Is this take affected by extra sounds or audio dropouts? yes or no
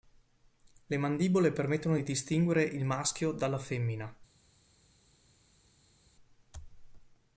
no